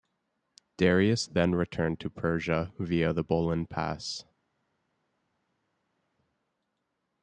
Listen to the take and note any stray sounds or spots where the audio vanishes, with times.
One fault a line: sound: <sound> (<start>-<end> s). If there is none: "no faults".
no faults